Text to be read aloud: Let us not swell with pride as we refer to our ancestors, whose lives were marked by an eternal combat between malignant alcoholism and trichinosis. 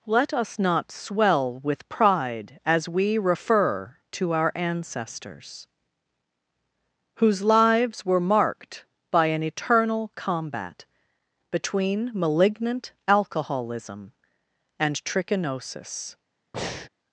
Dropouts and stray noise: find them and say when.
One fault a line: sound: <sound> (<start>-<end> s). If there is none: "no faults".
sound: breath (16.5-16.9 s)